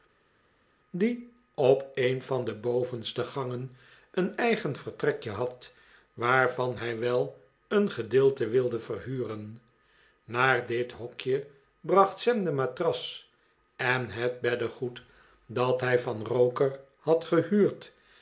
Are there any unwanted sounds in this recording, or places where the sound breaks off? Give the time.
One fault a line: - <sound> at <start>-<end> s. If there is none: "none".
none